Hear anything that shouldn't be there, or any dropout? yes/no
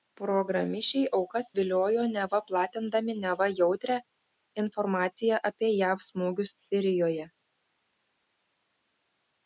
no